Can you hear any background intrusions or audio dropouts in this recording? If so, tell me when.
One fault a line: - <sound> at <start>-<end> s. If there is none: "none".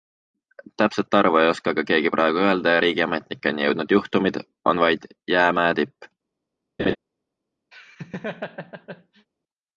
- laugh at 6.8-7.0 s
- laugh at 7.7-9.3 s